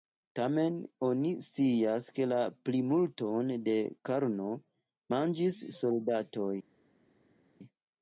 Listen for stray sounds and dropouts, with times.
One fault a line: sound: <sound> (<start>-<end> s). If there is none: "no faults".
no faults